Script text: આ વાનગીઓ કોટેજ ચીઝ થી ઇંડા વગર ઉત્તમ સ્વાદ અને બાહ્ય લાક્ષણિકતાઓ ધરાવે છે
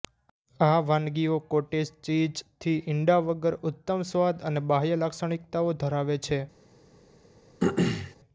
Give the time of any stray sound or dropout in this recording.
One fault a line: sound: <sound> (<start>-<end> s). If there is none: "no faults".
sound: throat clearing (7.6-8.1 s)